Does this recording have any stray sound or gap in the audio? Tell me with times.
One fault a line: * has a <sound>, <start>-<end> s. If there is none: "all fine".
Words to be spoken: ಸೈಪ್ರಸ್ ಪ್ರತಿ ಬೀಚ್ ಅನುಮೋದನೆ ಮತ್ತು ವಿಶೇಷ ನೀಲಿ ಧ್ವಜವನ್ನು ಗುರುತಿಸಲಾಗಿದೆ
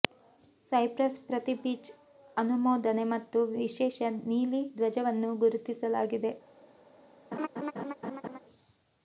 * has a laugh, 7.3-8.4 s